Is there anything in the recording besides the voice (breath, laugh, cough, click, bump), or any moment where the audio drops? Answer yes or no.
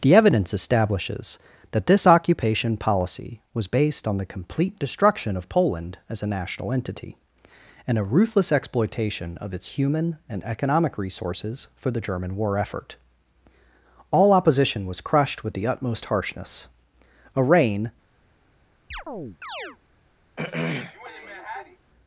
yes